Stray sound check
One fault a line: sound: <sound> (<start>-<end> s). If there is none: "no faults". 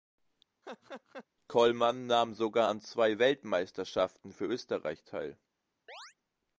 sound: laugh (0.6-1.3 s)
sound: chirp (5.9-6.2 s)